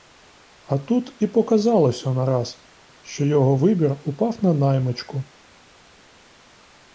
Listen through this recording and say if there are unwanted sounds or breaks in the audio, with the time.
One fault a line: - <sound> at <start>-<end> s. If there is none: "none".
none